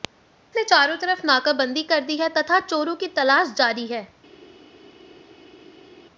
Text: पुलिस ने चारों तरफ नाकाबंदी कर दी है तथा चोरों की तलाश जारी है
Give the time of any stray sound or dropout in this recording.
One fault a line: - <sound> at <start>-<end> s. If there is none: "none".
none